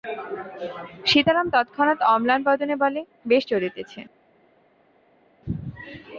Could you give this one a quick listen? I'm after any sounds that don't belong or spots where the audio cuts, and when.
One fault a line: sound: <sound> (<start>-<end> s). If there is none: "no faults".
no faults